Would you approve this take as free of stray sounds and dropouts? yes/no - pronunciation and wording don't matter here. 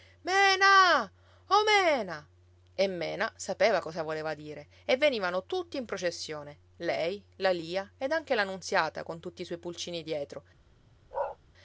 no